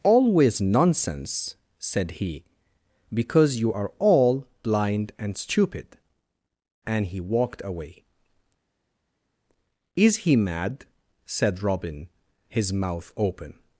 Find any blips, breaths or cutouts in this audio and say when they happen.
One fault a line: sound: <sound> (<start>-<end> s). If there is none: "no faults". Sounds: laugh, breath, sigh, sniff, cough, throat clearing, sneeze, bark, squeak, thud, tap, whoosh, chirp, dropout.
no faults